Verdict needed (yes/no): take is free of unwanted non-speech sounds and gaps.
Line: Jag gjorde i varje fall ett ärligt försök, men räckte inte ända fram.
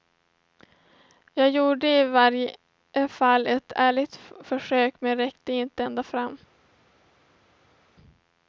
yes